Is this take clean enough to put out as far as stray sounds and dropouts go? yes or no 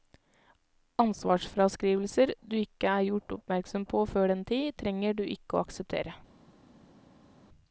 yes